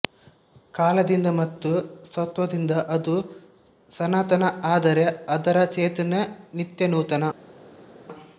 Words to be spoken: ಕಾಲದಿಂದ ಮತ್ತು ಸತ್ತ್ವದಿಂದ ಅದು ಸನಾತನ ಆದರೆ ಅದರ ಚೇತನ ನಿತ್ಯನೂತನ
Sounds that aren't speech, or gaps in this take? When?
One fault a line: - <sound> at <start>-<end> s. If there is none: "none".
none